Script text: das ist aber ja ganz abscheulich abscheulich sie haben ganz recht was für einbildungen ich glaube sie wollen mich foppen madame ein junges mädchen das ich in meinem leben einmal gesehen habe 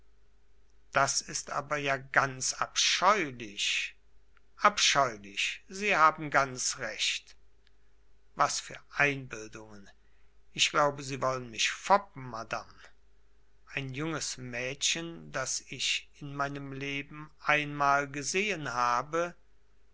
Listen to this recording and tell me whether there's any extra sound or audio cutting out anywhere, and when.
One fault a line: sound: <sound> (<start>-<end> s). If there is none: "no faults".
no faults